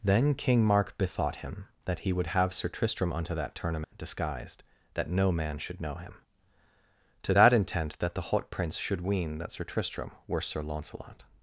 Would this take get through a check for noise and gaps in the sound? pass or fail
fail